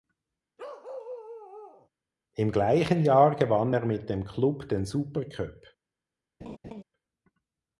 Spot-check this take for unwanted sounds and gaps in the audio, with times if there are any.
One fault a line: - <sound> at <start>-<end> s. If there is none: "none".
- bark at 0.6-1.9 s
- laugh at 6.4-6.8 s